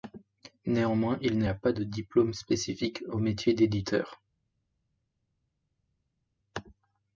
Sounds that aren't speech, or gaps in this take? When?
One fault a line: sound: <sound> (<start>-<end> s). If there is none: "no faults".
no faults